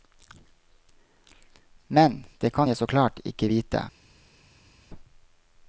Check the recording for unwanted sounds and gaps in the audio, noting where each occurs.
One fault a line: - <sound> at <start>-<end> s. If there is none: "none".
none